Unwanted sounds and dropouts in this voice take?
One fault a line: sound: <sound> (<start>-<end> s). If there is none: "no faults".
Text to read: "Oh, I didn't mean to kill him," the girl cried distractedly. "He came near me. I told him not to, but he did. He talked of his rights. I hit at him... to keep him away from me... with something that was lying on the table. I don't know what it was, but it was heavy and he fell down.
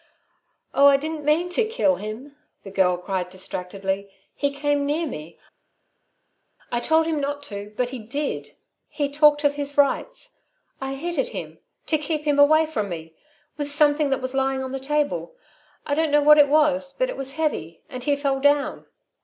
no faults